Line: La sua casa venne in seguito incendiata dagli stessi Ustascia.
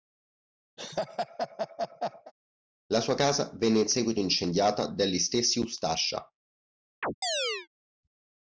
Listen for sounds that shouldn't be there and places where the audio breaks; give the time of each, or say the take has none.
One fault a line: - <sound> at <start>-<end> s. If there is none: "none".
- laugh at 0.8-2.3 s
- chirp at 7.0-7.7 s